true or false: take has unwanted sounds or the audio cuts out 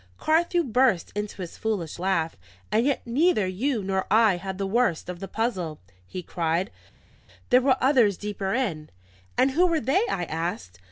false